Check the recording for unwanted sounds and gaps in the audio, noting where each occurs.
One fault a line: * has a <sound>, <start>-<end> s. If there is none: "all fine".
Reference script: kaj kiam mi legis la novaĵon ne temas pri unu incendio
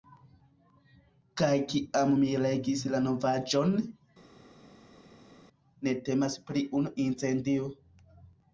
all fine